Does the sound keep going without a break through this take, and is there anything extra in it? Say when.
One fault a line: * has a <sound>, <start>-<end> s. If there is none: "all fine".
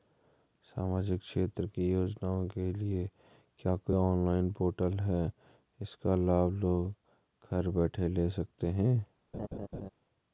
* has a laugh, 9.3-9.9 s